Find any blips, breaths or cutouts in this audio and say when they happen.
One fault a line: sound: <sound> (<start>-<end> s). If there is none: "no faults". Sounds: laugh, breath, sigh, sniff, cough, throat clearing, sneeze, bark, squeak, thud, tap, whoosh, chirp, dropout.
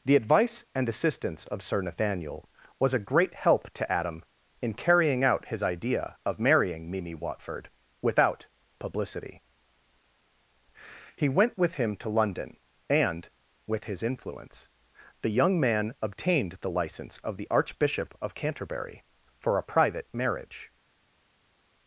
no faults